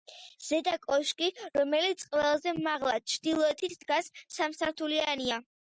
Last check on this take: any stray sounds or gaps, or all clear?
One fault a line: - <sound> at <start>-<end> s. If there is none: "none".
none